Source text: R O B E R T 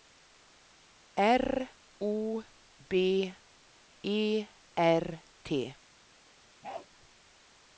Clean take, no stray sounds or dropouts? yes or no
no